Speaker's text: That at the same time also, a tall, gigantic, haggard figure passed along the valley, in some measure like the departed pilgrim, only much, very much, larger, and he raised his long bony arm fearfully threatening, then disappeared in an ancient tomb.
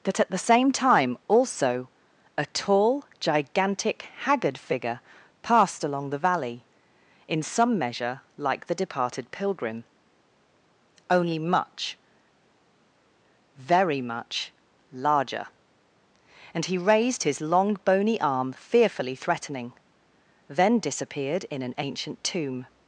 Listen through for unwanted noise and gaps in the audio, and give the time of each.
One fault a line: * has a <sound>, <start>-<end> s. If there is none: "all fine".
all fine